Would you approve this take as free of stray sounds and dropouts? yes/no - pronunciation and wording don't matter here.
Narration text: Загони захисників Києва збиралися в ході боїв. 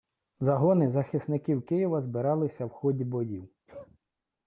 no